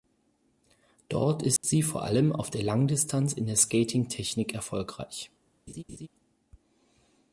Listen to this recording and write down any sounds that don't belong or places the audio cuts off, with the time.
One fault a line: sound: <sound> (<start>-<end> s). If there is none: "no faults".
sound: dropout (1.6-1.6 s)
sound: laugh (5.7-6.1 s)